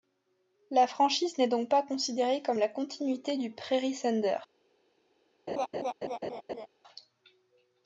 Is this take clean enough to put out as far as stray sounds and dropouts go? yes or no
no